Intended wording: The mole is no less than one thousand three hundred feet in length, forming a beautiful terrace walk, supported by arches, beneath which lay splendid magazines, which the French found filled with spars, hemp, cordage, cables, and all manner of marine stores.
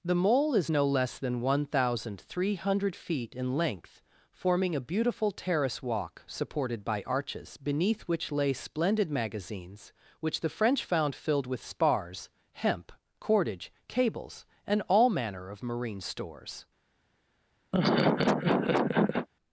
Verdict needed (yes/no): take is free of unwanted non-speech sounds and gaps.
no